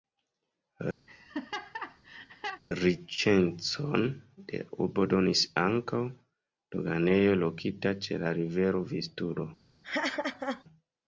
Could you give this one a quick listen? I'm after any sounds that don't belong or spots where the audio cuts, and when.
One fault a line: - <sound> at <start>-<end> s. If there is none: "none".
- laugh at 1.1-2.6 s
- laugh at 9.8-10.6 s